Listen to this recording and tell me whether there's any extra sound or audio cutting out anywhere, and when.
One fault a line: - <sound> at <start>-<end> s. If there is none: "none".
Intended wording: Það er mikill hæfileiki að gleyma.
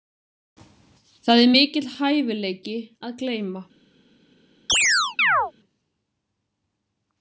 - chirp at 4.7-5.5 s